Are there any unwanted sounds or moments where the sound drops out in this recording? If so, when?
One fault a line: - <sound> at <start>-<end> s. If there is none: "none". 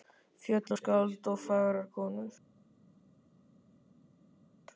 none